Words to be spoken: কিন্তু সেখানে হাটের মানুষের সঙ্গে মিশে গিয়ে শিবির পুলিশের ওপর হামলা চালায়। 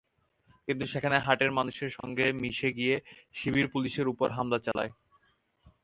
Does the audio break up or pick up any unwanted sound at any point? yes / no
yes